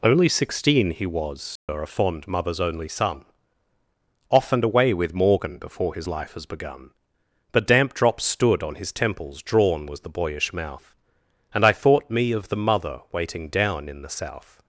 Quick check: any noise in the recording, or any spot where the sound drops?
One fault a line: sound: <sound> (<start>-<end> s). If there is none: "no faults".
sound: dropout (1.6-1.7 s)